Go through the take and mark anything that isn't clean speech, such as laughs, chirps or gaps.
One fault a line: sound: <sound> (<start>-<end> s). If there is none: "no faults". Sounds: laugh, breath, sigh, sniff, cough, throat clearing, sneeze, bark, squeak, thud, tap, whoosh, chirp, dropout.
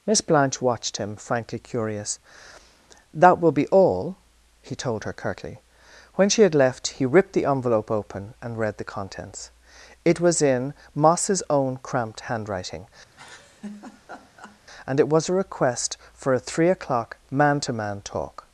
sound: laugh (13.1-14.6 s)